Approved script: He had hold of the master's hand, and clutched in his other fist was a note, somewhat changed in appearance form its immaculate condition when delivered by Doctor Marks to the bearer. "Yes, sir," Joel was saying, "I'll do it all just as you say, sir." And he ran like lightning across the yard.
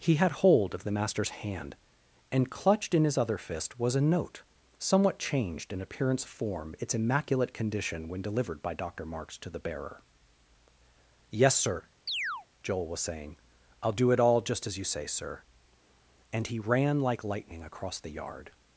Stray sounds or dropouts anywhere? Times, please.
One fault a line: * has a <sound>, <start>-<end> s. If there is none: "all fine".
* has a chirp, 12.1-12.5 s